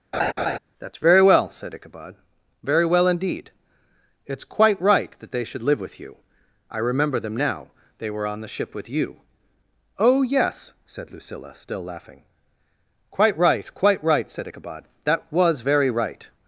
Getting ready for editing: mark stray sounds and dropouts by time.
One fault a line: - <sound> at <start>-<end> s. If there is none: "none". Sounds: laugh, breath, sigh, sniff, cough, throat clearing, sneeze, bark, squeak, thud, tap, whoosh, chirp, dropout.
- laugh at 0.1-0.6 s